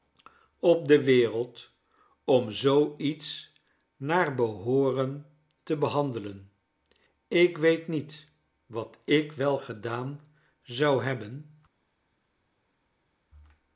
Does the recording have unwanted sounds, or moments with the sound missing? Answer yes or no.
no